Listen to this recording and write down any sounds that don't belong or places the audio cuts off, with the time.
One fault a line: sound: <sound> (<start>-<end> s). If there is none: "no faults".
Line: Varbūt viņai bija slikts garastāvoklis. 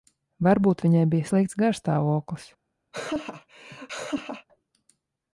sound: laugh (2.9-4.5 s)